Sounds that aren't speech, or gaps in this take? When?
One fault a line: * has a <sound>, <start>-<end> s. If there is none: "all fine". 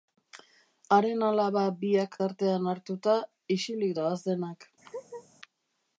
* has a laugh, 4.8-5.3 s